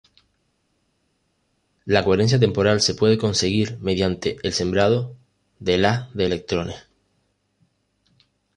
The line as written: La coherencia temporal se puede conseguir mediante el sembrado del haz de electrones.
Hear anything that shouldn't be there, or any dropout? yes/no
no